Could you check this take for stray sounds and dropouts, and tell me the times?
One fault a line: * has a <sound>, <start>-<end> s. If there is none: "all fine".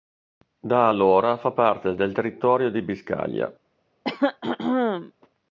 * has a throat clearing, 4.0-5.1 s